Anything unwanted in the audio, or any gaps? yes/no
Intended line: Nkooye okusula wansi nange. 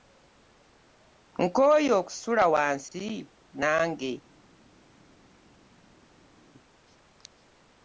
no